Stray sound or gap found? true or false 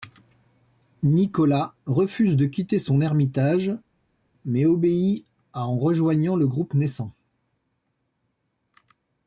false